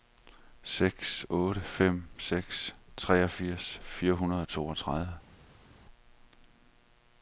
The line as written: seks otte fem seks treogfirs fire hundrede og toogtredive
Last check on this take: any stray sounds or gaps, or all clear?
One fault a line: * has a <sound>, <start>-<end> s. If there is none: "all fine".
all fine